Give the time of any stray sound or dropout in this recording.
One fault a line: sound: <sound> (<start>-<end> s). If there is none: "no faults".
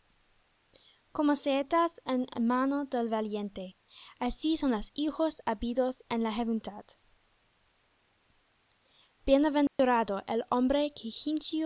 sound: dropout (9.7-9.8 s)